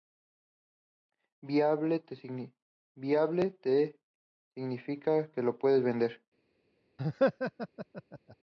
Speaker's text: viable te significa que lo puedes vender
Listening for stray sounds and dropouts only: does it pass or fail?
fail